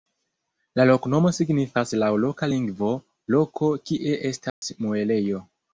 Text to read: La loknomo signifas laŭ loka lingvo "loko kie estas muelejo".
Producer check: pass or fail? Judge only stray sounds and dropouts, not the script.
fail